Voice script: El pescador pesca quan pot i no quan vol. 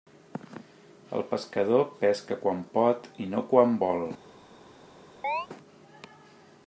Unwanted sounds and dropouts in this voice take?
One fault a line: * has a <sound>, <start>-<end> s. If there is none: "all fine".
* has a chirp, 5.2-5.5 s